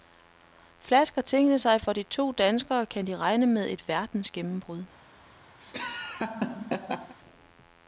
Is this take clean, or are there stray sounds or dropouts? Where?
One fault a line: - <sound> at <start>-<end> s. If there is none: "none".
- laugh at 5.6-7.1 s